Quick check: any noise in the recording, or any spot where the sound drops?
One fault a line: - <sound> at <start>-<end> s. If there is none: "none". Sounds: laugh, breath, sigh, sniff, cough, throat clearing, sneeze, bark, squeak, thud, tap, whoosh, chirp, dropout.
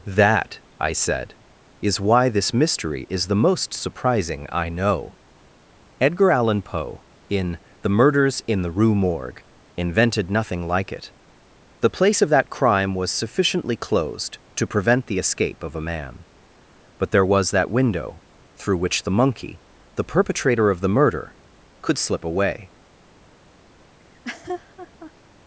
- laugh at 24.0-25.1 s